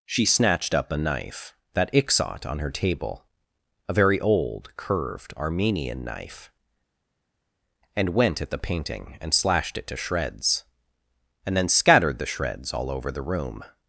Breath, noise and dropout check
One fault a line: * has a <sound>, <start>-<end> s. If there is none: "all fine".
all fine